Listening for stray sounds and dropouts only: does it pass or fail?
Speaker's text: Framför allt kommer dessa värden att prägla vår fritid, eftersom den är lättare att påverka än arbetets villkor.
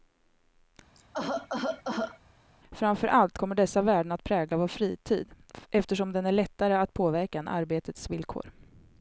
fail